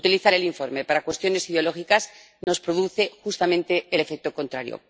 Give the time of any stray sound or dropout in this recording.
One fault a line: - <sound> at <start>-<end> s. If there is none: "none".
- dropout at 2.4-2.5 s